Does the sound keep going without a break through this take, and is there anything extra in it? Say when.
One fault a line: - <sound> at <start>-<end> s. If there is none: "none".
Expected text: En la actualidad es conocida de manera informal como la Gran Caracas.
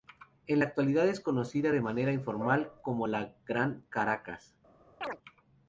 - chirp at 5.0-5.2 s